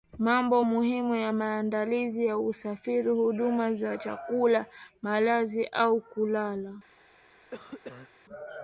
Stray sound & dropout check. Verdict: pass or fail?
fail